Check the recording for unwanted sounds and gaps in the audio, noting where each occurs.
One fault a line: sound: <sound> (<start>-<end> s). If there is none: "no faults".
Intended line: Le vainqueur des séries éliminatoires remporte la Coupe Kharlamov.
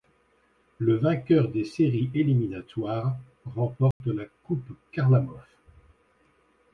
sound: dropout (3.9-4.0 s)